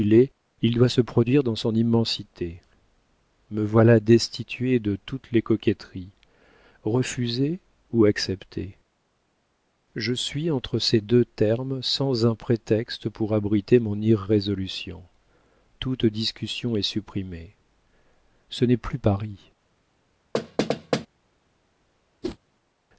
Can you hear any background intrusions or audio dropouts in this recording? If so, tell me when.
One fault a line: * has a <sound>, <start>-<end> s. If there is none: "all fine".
* has a thud, 20.3-21.1 s
* has a whoosh, 22.2-22.4 s